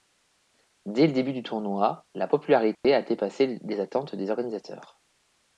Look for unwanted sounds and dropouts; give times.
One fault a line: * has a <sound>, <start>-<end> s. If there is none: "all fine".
* has a dropout, 2.7-2.8 s